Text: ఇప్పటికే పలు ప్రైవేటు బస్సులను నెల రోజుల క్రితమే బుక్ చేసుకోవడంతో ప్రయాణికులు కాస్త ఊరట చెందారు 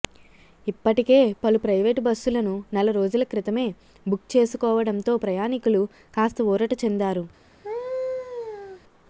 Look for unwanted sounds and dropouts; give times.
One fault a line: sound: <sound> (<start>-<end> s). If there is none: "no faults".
sound: laugh (7.6-8.8 s)